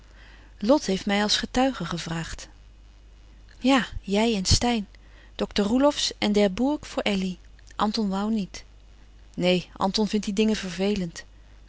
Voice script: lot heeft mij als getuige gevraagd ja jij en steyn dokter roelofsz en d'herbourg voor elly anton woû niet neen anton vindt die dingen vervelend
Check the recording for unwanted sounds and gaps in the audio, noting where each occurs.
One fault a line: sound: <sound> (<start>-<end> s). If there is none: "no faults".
no faults